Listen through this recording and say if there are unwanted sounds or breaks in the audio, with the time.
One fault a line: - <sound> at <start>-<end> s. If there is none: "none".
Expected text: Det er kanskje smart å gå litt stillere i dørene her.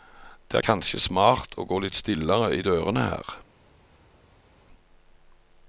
none